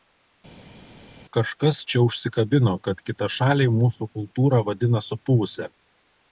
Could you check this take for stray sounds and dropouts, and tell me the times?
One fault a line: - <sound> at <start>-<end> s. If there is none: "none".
none